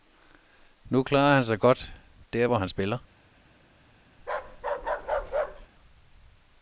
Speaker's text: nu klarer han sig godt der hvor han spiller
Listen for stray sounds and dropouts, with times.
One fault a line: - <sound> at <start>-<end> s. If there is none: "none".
- bark at 4.2-5.7 s